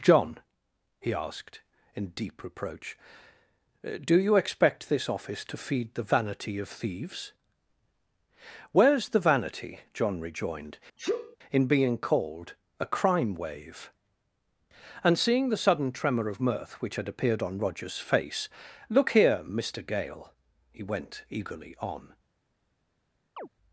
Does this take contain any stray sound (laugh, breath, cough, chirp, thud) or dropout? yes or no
yes